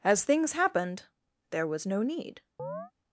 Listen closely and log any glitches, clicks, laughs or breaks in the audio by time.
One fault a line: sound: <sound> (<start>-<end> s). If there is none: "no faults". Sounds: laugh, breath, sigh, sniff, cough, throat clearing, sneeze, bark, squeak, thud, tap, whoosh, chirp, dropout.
sound: chirp (2.6-2.9 s)